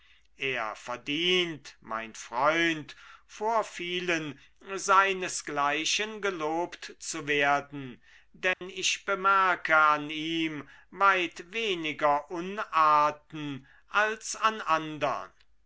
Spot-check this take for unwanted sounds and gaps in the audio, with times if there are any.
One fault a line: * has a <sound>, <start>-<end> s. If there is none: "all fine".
* has a dropout, 8.5-8.6 s